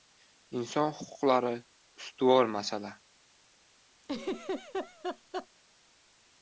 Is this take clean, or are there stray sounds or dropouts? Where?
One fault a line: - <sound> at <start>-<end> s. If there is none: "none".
- laugh at 4.0-5.5 s